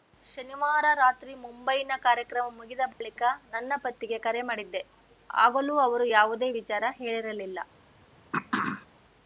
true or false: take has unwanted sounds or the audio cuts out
true